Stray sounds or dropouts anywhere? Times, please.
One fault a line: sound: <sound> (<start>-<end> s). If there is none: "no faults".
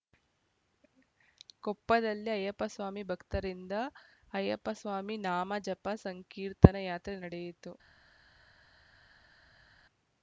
no faults